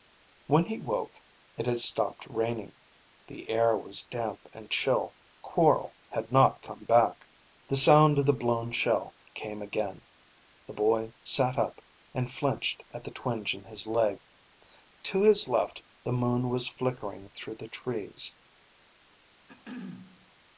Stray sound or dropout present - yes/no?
yes